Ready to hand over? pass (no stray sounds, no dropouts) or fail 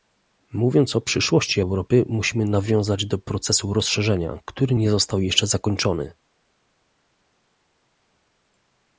pass